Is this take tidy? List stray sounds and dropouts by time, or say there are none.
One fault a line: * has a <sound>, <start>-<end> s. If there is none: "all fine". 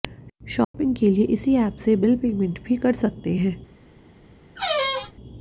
* has a dropout, 0.6-0.7 s
* has a squeak, 4.6-5.1 s